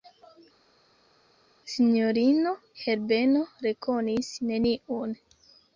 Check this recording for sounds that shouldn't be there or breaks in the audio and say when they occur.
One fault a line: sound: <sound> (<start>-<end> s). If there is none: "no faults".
no faults